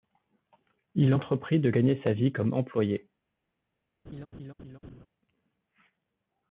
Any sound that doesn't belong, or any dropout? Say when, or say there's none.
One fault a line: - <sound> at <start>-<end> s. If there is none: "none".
- laugh at 4.1-5.1 s